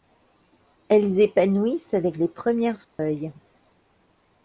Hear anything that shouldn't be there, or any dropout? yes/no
yes